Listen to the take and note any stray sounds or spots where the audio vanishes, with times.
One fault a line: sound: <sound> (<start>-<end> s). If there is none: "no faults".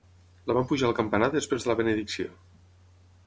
no faults